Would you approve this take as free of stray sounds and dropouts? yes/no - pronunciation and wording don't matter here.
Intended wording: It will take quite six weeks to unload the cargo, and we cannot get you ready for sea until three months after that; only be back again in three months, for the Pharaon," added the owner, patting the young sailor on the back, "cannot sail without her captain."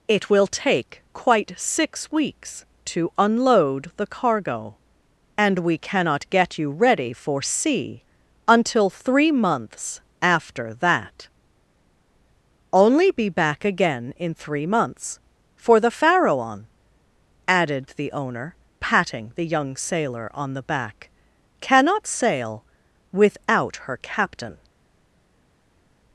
yes